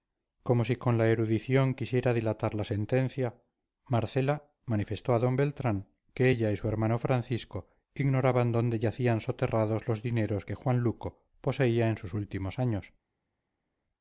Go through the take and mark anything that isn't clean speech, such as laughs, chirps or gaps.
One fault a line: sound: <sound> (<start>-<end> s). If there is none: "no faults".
no faults